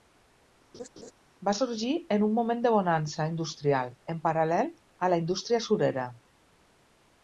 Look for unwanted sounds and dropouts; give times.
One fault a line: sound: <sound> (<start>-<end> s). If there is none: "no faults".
sound: laugh (0.7-1.1 s)